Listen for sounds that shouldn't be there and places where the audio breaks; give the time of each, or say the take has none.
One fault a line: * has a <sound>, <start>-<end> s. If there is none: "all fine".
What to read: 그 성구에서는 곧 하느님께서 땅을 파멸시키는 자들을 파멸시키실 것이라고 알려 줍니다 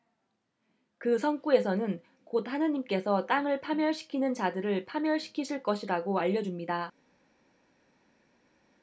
all fine